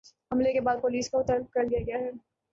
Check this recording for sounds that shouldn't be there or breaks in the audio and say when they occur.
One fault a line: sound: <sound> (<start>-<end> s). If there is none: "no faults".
no faults